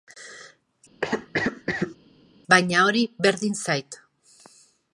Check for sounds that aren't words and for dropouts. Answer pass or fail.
fail